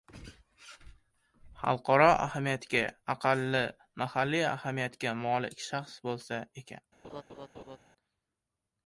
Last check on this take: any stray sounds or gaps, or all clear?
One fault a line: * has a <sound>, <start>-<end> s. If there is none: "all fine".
* has a laugh, 7.0-7.8 s